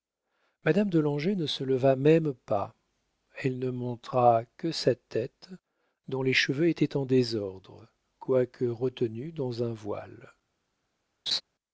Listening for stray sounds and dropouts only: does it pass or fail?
fail